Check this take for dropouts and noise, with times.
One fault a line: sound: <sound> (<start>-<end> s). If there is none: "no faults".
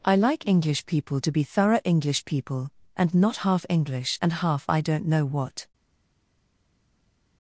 no faults